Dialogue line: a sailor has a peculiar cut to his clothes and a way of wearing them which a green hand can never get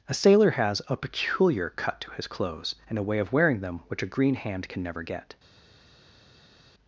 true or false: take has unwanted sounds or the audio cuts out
false